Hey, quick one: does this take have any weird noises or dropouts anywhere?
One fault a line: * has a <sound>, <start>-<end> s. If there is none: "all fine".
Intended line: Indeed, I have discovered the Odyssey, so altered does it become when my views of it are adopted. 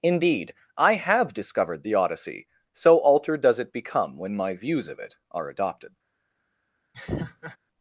* has a laugh, 6.9-7.6 s